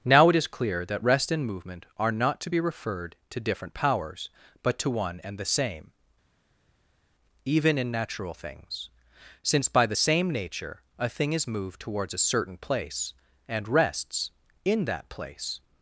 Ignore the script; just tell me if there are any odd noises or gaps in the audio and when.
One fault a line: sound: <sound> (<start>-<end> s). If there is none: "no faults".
no faults